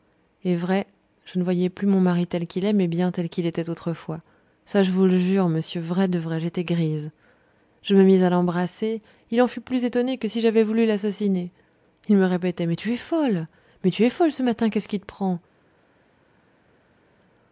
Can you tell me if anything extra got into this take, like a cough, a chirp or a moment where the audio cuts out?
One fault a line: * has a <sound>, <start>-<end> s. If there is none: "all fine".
all fine